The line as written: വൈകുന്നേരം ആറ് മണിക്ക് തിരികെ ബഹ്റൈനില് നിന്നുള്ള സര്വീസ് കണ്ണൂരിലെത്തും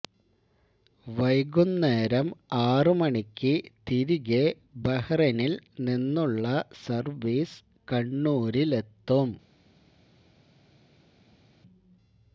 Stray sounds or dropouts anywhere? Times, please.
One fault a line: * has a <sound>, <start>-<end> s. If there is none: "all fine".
all fine